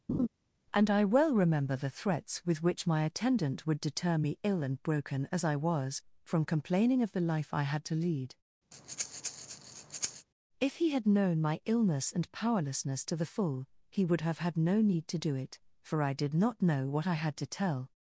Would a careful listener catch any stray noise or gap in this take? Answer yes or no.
yes